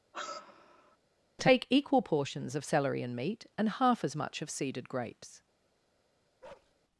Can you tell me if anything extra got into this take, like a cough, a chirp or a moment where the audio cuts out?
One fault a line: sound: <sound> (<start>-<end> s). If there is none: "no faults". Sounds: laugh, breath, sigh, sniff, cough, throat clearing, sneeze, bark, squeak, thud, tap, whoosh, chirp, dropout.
sound: sigh (0.1-1.0 s)
sound: bark (6.4-6.7 s)